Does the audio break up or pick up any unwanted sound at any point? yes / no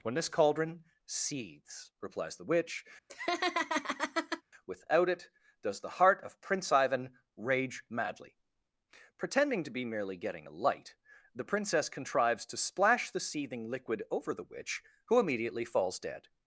yes